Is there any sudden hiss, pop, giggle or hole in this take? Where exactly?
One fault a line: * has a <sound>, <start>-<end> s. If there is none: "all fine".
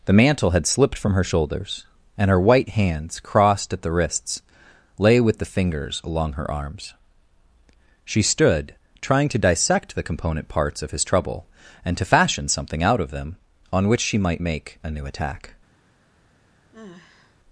* has a sigh, 16.7-17.4 s